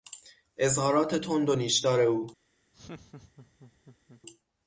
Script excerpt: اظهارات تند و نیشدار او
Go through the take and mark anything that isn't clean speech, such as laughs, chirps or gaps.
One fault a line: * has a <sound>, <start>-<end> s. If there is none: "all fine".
* has a laugh, 2.7-4.2 s